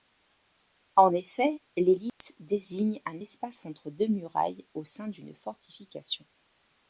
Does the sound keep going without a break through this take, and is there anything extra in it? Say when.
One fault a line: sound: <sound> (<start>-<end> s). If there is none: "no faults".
sound: dropout (2.1-2.2 s)